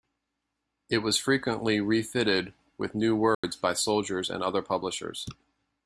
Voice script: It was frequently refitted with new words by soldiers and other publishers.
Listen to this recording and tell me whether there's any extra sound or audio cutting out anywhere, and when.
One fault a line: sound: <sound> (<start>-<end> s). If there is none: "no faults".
sound: dropout (3.3-3.4 s)